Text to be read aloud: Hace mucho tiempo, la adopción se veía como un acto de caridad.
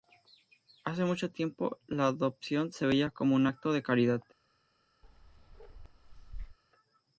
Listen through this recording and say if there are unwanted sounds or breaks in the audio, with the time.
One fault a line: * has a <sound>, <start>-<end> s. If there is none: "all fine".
* has a bark, 5.0-6.6 s